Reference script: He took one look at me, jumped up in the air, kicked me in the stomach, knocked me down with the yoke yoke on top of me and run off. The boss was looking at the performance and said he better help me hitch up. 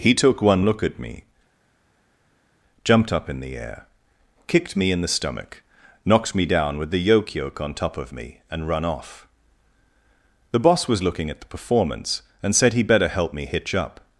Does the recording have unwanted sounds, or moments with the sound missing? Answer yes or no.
no